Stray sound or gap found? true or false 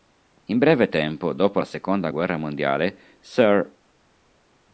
false